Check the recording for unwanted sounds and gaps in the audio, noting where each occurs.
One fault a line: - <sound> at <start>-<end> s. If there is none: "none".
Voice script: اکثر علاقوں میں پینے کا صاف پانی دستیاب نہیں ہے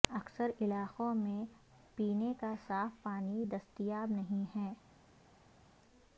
none